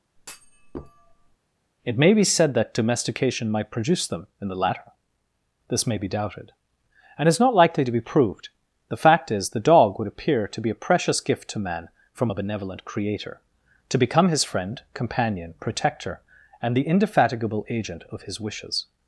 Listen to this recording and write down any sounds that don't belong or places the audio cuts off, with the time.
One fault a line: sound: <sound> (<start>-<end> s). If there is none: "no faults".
sound: thud (0.2-1.4 s)